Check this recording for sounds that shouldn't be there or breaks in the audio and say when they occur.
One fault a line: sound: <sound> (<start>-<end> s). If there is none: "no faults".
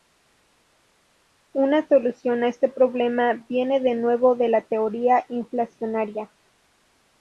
no faults